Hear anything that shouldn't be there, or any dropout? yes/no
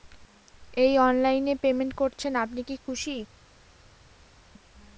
no